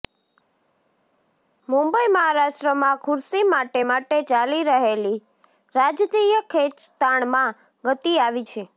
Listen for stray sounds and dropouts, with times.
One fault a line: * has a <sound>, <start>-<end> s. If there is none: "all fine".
all fine